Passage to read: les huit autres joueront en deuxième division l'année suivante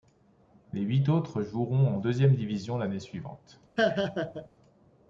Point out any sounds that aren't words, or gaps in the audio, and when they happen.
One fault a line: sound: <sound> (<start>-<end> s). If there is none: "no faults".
sound: laugh (3.8-4.5 s)